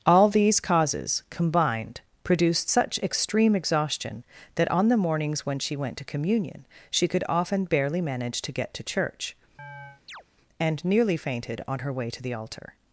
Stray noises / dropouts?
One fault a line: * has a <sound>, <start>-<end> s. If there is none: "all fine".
* has a chirp, 9.6-10.2 s